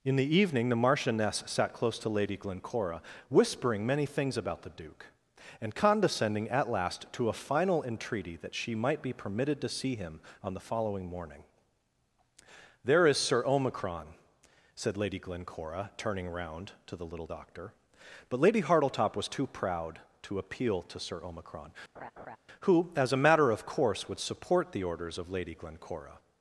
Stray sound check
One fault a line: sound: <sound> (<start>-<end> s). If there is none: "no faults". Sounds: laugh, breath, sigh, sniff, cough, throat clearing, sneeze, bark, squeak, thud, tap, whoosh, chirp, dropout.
sound: laugh (22.0-22.4 s)